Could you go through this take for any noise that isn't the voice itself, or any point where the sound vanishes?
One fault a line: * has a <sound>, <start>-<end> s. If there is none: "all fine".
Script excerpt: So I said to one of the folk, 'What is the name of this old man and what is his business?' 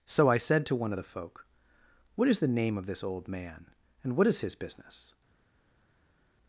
all fine